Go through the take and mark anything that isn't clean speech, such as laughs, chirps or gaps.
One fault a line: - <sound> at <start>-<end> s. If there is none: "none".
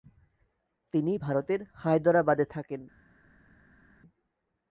none